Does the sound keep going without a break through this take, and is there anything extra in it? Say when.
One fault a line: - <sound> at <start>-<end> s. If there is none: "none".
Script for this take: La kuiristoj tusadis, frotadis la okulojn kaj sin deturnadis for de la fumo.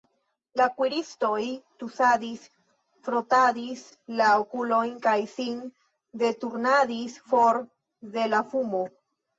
none